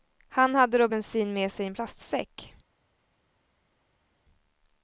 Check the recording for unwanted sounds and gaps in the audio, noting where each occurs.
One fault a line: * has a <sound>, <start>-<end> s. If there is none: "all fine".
all fine